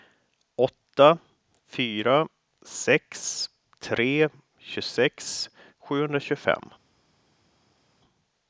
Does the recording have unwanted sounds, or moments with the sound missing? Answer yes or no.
no